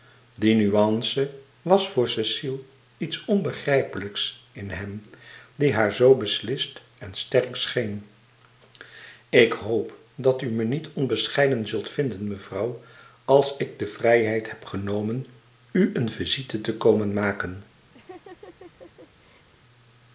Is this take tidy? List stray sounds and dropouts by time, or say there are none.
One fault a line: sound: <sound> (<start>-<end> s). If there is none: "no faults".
sound: laugh (17.9-19.5 s)